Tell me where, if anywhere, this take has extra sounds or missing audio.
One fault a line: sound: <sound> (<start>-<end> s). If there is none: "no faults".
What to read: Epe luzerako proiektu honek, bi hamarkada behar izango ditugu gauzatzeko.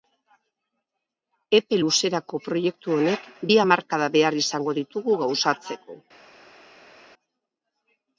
no faults